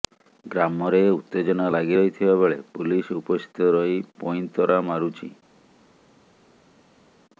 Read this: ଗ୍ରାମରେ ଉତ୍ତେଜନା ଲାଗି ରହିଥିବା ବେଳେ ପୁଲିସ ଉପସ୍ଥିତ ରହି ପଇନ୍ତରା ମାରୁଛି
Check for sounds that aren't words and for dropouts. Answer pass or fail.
pass